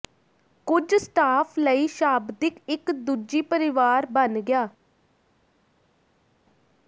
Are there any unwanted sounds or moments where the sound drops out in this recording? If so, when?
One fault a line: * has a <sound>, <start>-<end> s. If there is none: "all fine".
all fine